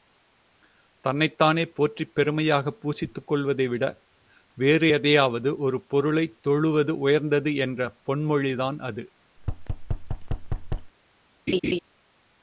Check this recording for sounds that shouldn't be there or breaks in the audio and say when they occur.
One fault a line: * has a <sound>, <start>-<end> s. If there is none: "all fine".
* has a thud, 9.4-10.9 s
* has a laugh, 11.5-11.8 s